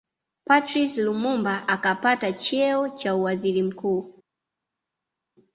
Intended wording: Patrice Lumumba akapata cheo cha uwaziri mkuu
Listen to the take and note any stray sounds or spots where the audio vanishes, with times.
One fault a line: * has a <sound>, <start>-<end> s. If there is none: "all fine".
all fine